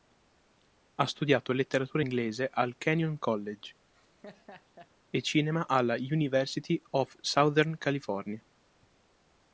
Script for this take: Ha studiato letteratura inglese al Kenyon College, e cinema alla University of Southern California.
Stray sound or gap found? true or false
true